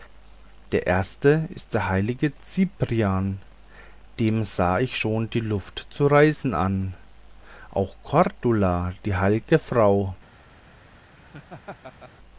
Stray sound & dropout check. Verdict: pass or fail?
fail